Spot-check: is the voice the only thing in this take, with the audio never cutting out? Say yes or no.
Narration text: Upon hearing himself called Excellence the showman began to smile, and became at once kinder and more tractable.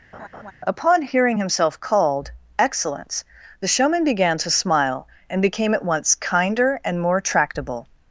no